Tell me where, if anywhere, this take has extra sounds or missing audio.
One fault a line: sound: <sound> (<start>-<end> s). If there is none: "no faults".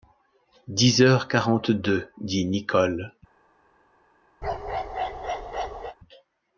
sound: bark (4.4-6.0 s)